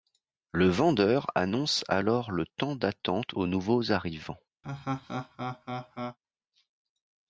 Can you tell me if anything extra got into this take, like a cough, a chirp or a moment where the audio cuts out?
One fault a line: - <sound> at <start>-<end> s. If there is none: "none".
- laugh at 4.6-6.2 s